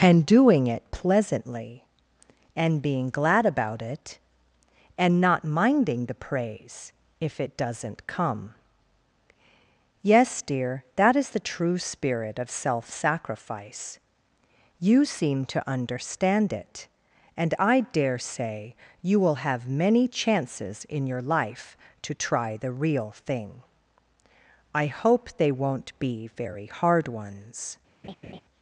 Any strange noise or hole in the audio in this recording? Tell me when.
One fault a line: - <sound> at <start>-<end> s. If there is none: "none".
- laugh at 28.0-28.4 s